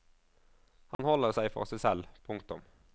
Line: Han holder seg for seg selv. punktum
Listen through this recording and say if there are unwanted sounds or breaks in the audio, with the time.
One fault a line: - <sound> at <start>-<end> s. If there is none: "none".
- dropout at 0.9-1.0 s